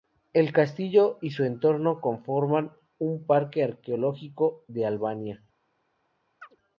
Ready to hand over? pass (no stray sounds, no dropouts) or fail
fail